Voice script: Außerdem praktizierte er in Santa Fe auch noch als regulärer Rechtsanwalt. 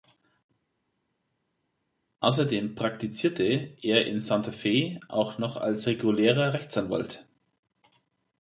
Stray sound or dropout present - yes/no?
no